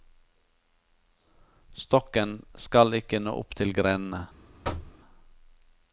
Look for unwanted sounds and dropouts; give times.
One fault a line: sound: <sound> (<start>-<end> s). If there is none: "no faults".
sound: thud (4.6-5.0 s)